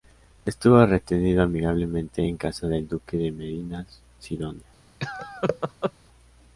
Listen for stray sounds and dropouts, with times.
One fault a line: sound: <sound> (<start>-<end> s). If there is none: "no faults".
sound: laugh (5.0-5.9 s)